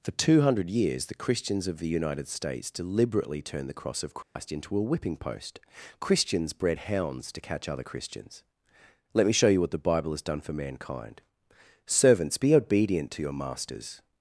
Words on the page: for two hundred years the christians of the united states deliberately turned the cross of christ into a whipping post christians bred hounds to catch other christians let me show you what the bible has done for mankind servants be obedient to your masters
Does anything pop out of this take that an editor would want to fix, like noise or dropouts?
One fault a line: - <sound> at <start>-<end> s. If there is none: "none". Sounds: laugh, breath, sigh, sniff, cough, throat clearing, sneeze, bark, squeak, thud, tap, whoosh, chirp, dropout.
- dropout at 4.2-4.4 s